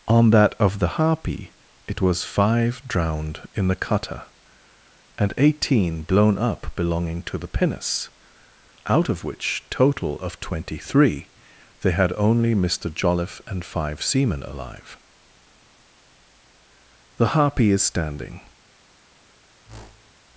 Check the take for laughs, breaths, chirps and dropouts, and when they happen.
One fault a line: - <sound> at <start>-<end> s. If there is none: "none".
- whoosh at 19.6-20.1 s